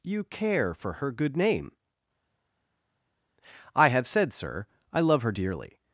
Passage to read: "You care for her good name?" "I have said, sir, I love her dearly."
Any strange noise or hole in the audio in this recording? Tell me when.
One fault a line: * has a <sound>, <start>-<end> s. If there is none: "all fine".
all fine